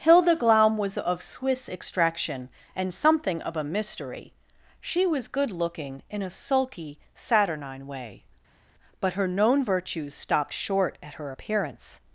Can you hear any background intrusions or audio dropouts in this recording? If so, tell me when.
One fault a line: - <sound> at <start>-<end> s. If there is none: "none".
none